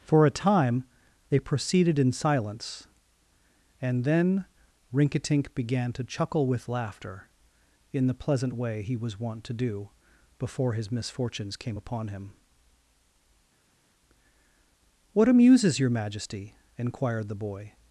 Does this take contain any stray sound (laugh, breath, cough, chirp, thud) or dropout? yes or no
no